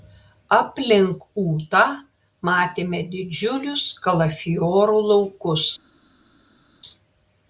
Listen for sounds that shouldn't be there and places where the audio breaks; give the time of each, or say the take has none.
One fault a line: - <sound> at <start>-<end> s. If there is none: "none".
none